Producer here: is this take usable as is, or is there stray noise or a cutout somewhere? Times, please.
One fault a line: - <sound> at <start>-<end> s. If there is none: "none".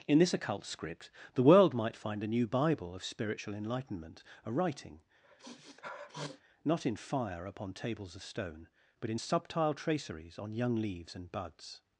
- sniff at 5.2-6.4 s